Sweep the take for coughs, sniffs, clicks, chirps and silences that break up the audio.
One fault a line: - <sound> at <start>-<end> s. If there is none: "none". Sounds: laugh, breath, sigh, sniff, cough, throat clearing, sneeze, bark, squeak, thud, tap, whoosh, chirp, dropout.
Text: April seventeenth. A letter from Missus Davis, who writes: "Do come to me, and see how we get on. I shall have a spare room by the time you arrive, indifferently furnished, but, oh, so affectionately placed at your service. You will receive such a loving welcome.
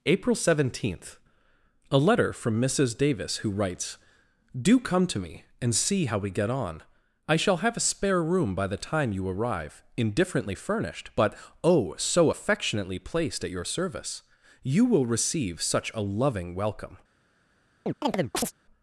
- chirp at 17.9-18.5 s